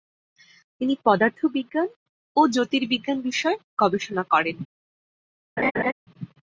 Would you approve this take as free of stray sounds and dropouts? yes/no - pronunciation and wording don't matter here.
no